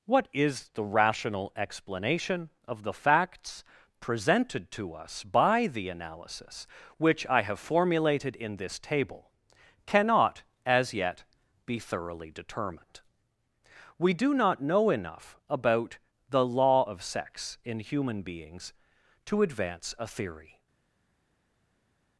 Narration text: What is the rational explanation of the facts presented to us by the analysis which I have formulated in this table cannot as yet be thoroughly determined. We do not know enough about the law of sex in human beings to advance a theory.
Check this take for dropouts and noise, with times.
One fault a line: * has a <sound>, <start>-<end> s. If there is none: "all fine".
all fine